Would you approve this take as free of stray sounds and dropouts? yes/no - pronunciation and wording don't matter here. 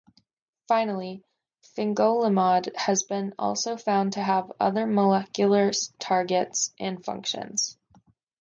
yes